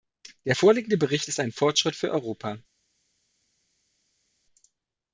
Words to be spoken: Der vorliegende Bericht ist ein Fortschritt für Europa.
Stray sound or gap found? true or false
false